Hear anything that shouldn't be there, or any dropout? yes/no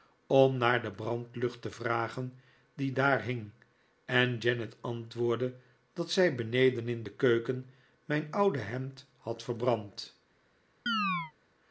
yes